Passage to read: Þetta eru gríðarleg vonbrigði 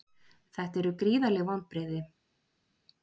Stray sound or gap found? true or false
false